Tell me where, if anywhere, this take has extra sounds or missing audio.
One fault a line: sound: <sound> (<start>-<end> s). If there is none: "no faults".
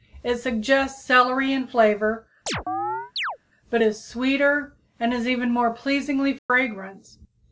sound: chirp (2.5-3.4 s)
sound: dropout (6.4-6.5 s)